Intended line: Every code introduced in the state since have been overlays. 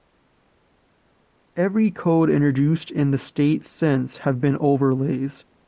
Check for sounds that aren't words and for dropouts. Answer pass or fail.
pass